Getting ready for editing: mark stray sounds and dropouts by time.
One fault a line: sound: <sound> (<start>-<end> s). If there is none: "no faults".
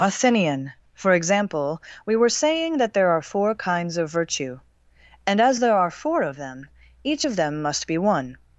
no faults